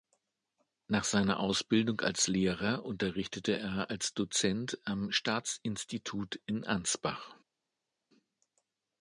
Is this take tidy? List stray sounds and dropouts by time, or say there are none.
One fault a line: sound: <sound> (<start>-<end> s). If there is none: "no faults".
no faults